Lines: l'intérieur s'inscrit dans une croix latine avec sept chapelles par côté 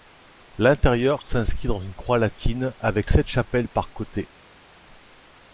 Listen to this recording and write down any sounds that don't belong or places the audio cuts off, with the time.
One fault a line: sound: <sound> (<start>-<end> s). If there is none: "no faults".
no faults